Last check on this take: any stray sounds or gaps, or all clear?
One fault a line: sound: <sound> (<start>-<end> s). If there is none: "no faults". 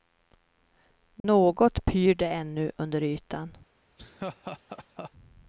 sound: dropout (1.2-1.2 s)
sound: laugh (4.0-5.1 s)